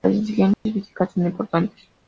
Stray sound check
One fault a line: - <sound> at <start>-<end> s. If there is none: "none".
- dropout at 0.5-0.7 s